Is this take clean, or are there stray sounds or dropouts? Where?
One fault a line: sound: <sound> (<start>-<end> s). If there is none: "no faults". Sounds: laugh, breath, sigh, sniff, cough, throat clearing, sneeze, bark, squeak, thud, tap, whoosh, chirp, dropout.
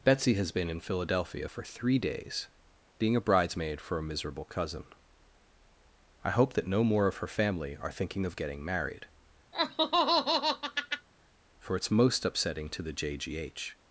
sound: laugh (9.5-11.1 s)